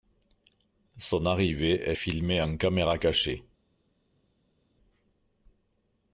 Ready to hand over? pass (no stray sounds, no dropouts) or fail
pass